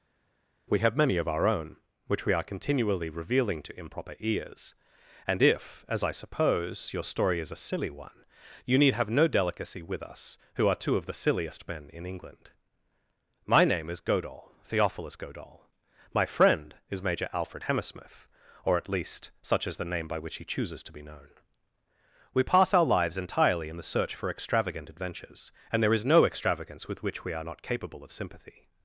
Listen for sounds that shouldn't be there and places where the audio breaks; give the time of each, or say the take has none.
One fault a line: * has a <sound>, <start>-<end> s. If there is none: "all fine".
all fine